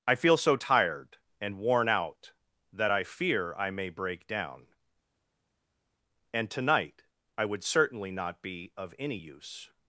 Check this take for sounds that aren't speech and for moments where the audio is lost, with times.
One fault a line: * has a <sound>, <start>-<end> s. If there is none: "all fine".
all fine